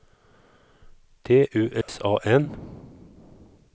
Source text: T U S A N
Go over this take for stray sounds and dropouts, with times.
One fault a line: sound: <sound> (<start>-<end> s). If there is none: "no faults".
sound: dropout (1.8-1.9 s)